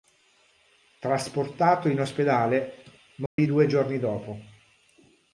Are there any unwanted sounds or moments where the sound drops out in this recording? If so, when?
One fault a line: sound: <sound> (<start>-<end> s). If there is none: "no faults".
sound: dropout (3.3-3.4 s)